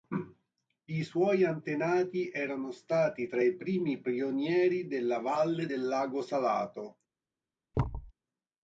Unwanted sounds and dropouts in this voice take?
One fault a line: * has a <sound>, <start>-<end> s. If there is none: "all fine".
* has a thud, 7.7-8.1 s